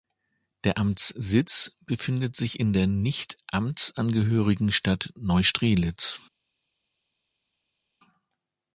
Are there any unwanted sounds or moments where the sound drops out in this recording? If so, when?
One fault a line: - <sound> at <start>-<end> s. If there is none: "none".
none